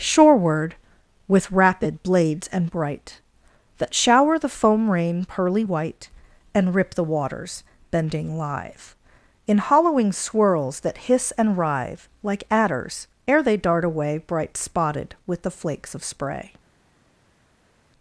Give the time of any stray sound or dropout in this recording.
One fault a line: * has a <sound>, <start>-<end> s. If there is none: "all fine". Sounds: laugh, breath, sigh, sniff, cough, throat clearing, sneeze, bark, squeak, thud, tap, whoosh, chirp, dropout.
all fine